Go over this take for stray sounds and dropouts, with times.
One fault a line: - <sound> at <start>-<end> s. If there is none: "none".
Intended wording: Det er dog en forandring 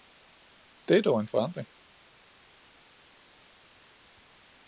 none